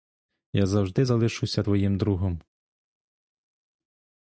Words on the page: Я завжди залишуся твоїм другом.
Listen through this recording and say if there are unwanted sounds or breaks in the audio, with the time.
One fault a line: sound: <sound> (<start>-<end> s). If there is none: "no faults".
no faults